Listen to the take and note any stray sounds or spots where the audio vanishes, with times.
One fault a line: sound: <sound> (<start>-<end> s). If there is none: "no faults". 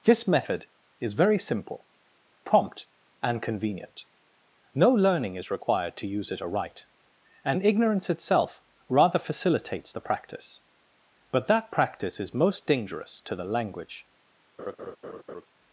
sound: laugh (14.6-15.5 s)